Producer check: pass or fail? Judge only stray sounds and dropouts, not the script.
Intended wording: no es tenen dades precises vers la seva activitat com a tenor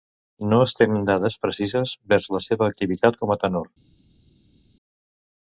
pass